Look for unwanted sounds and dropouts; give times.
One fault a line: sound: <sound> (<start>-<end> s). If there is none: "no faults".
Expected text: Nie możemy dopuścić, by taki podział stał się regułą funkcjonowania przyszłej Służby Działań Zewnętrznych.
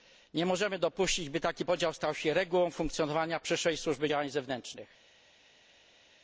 no faults